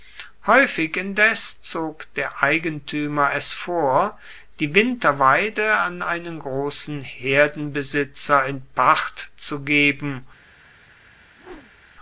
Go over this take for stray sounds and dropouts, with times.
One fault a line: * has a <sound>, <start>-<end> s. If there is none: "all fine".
* has a whoosh, 11.4-11.9 s